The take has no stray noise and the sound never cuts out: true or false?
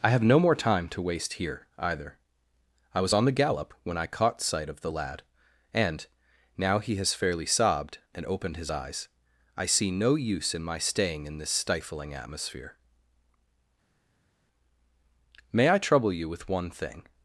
true